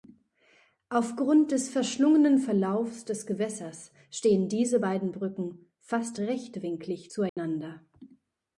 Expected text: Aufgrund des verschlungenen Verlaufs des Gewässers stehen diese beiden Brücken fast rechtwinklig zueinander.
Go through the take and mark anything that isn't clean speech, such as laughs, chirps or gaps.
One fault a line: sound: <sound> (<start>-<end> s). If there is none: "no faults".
sound: dropout (7.3-7.4 s)